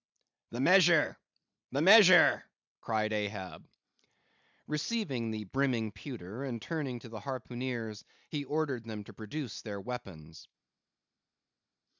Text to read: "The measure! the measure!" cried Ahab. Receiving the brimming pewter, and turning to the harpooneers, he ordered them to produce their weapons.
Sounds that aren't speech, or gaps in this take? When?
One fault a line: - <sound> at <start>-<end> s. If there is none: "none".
none